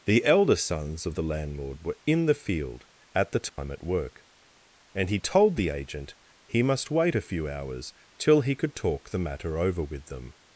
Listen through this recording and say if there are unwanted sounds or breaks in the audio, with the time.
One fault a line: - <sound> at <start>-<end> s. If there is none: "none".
- dropout at 3.5-3.6 s